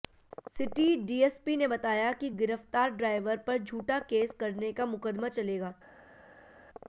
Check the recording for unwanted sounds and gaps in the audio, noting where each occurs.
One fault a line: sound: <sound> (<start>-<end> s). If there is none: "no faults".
no faults